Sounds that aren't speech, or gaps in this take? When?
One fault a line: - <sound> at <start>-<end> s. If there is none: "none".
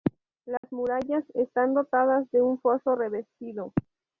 - dropout at 0.6-0.6 s